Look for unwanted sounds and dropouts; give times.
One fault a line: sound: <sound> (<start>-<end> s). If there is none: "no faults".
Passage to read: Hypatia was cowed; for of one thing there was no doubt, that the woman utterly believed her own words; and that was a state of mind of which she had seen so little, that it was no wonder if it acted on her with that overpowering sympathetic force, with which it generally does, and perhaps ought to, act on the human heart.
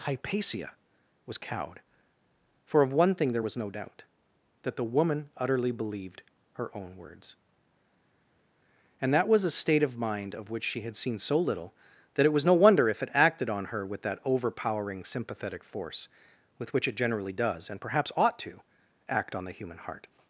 no faults